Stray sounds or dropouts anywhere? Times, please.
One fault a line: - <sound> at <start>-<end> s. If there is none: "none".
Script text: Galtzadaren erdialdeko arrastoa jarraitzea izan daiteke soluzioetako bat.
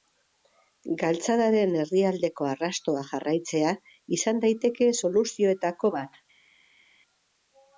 none